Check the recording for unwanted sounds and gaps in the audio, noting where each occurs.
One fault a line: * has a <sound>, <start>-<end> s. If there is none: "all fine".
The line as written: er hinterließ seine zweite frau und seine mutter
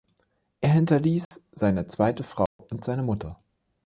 * has a dropout, 1.2-1.3 s
* has a dropout, 2.5-2.6 s